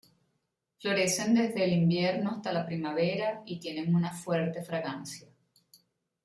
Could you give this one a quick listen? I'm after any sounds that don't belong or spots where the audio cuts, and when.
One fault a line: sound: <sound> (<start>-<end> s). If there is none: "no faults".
no faults